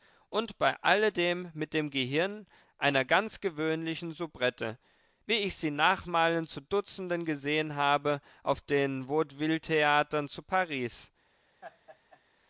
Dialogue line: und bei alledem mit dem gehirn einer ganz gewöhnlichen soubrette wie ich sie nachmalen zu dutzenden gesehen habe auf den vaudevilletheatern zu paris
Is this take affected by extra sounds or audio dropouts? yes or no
yes